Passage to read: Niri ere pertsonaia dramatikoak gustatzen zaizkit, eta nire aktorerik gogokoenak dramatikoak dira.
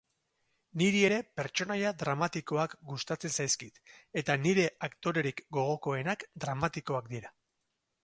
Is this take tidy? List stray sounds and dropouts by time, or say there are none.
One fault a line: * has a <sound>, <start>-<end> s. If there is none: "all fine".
all fine